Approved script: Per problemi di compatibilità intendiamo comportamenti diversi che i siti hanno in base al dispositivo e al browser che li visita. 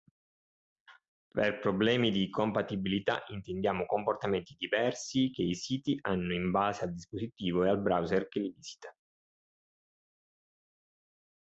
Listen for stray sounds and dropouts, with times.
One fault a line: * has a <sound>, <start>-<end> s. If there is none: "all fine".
all fine